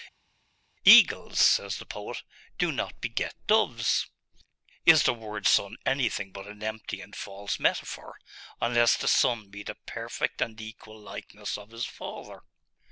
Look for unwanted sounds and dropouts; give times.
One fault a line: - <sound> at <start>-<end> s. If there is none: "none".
none